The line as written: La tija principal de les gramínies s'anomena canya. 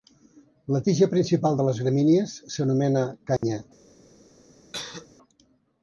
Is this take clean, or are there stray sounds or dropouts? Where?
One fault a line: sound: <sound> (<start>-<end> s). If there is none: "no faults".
sound: dropout (3.4-3.4 s)
sound: cough (4.7-5.1 s)